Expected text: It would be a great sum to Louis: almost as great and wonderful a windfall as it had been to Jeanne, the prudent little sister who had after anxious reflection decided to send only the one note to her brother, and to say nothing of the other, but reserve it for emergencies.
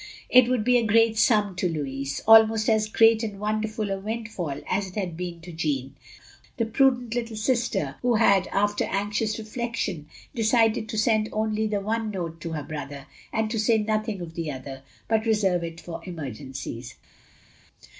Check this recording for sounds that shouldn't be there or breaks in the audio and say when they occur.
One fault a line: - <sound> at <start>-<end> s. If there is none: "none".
none